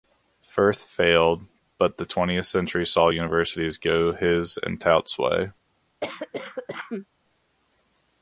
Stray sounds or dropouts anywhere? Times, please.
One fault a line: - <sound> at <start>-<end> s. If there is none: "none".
- cough at 6.0-7.1 s